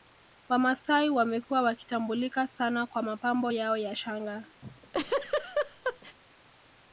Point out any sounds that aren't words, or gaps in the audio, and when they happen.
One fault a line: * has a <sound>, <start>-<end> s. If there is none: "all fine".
* has a laugh, 4.6-6.2 s